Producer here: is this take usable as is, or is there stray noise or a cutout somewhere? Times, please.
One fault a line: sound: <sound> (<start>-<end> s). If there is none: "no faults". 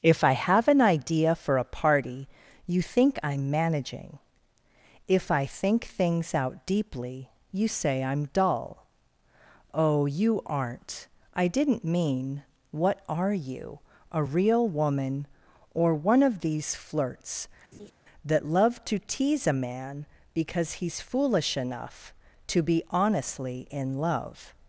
sound: laugh (17.7-17.9 s)